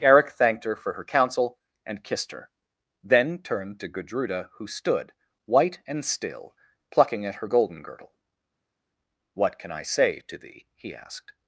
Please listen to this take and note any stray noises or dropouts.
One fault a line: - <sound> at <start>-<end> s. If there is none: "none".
none